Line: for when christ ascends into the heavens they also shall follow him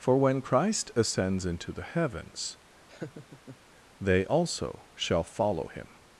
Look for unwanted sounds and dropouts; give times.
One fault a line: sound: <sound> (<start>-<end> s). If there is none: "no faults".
sound: laugh (2.9-3.6 s)